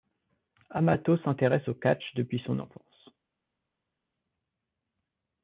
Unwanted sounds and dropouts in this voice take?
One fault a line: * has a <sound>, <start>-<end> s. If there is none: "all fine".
all fine